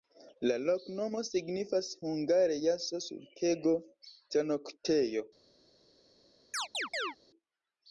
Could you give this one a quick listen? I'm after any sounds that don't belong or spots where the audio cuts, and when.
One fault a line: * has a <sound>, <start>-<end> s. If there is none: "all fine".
* has a chirp, 6.5-7.2 s